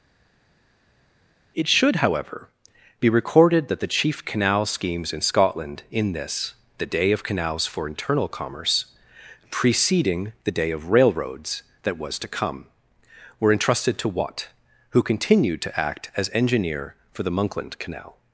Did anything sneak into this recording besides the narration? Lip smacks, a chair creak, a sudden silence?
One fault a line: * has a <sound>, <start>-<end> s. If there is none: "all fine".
all fine